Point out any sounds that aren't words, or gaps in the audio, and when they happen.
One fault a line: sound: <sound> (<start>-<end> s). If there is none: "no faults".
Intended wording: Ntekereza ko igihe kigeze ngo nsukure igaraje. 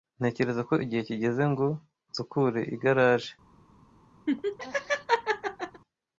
sound: laugh (4.3-5.8 s)